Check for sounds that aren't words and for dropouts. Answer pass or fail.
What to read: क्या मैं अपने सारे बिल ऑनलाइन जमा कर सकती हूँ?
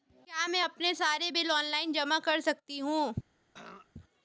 fail